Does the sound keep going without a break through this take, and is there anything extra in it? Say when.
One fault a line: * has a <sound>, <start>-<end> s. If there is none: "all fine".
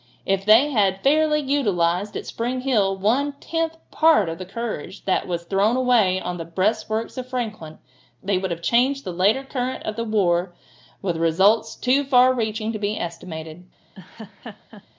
* has a laugh, 13.9-14.9 s